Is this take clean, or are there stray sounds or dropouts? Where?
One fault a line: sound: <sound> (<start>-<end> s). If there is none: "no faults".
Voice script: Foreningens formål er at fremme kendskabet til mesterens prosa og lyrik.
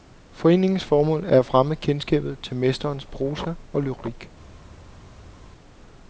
no faults